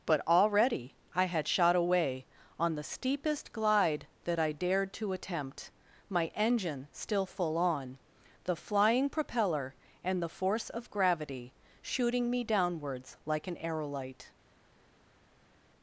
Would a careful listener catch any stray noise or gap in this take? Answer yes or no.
no